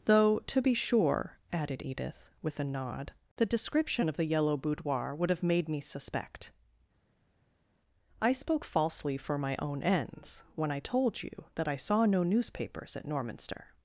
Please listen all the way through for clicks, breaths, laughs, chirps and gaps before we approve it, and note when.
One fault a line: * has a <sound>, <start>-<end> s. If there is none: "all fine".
all fine